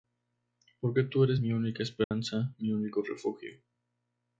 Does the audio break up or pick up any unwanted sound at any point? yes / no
yes